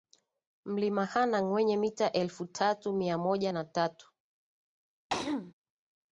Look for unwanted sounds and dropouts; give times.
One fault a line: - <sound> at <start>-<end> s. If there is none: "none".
- throat clearing at 5.1-5.5 s